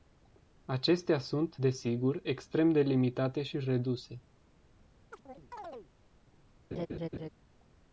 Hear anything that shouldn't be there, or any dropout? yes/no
yes